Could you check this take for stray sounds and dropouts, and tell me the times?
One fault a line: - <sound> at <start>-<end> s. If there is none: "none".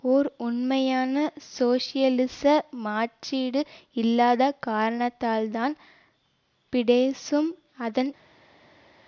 none